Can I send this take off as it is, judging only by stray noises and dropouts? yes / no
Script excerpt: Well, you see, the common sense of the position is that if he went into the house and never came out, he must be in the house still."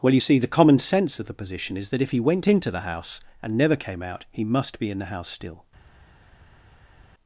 yes